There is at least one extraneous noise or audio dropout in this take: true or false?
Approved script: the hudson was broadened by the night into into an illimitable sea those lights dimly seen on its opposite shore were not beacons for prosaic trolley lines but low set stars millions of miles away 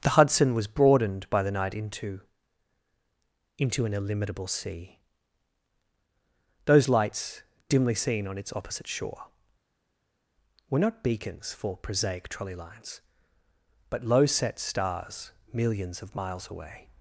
false